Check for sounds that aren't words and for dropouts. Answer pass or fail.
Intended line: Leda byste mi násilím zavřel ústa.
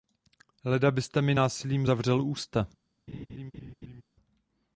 fail